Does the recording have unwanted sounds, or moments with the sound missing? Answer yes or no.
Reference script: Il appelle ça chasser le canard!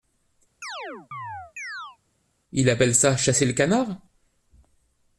yes